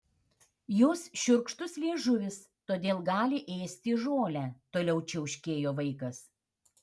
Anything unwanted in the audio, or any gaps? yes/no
no